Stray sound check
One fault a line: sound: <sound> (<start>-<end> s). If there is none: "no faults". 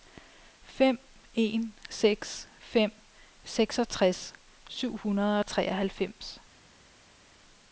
no faults